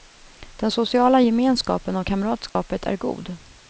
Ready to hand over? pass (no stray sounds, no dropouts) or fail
fail